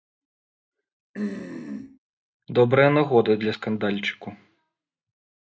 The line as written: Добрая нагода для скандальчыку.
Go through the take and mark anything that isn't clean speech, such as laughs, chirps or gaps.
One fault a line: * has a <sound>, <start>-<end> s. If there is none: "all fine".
* has a throat clearing, 1.1-2.0 s